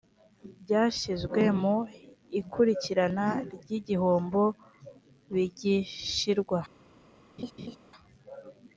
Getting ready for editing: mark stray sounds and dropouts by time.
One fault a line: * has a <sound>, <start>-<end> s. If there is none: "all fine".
* has a laugh, 7.4-7.8 s